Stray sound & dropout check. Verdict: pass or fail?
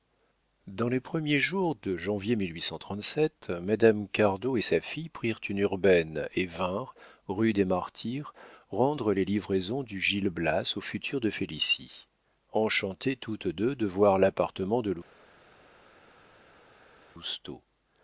pass